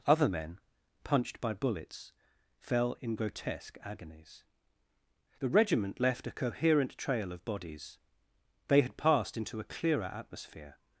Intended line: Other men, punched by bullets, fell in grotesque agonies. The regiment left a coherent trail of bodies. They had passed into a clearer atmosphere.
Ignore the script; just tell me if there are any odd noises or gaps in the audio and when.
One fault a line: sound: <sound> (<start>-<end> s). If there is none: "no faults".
no faults